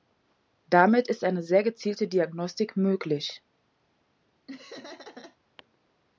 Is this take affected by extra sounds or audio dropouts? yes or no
yes